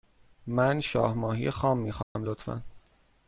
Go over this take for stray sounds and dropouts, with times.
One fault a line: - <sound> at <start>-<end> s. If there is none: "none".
- dropout at 2.0-2.2 s